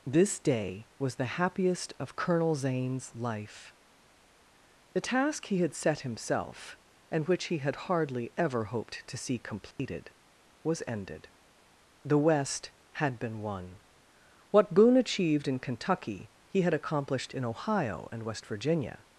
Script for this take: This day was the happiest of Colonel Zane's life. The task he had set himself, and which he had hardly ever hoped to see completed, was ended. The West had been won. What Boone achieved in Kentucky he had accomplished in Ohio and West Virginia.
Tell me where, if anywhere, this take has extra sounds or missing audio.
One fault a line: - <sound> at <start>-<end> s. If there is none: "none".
- dropout at 9.7-9.8 s